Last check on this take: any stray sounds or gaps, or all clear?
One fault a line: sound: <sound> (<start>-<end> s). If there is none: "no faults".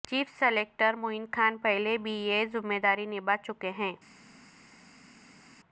no faults